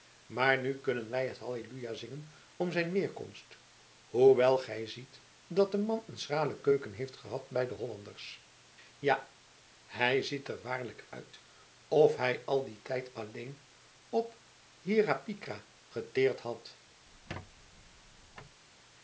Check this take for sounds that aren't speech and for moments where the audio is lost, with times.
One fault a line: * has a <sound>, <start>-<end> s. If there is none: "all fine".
* has a squeak, 17.1-18.6 s